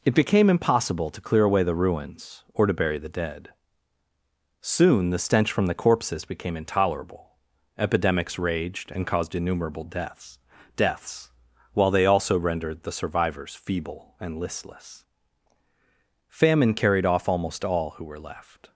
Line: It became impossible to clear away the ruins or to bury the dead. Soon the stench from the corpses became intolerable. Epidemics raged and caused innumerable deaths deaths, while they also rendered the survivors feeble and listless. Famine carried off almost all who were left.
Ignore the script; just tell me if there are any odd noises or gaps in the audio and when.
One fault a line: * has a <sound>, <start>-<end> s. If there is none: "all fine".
all fine